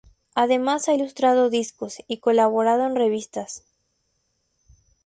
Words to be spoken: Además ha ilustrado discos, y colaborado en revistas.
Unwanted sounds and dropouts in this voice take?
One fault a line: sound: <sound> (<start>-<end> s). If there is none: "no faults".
no faults